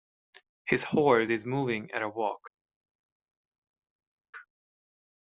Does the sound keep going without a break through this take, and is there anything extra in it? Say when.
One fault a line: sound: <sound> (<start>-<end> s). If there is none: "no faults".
no faults